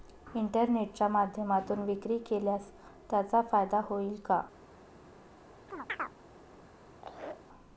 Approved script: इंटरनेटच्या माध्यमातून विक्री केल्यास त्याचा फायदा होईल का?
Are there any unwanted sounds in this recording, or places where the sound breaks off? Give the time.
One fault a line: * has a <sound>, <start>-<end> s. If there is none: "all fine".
* has a chirp, 5.7-6.2 s
* has a laugh, 6.9-7.4 s